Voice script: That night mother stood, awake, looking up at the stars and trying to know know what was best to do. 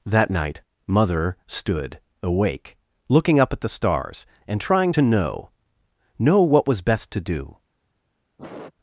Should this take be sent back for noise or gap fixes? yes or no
yes